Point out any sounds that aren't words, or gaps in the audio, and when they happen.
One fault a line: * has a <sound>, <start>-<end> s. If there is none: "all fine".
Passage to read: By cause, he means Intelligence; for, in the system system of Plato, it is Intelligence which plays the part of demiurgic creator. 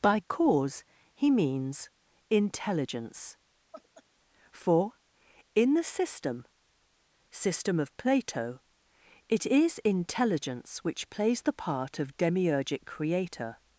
* has a laugh, 3.7-4.0 s